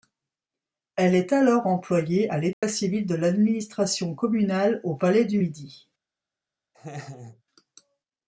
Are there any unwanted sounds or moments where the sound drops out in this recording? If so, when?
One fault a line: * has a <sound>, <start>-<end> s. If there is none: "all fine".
* has a dropout, 2.5-2.6 s
* has a laugh, 6.7-7.4 s